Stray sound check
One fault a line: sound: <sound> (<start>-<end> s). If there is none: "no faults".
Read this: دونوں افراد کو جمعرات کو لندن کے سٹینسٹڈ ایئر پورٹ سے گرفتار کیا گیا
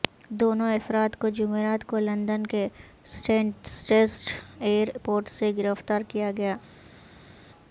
no faults